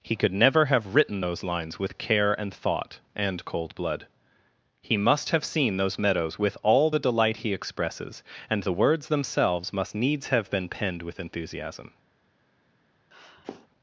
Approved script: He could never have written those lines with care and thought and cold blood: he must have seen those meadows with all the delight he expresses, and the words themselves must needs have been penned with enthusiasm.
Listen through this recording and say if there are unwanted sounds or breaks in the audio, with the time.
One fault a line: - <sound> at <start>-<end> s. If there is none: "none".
- sniff at 13.1-13.7 s